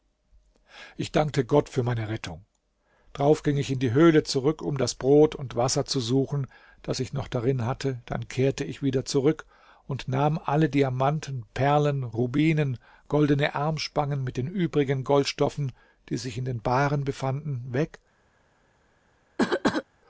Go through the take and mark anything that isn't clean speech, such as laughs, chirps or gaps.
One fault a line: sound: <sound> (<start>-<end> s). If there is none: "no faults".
sound: cough (19.4-19.8 s)